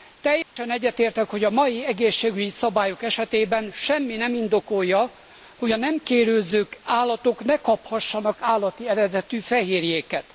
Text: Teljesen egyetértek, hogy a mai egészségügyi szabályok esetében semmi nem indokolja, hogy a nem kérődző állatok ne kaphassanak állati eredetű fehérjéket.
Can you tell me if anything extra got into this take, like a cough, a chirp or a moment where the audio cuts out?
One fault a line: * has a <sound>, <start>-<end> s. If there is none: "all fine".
* has a dropout, 0.4-0.6 s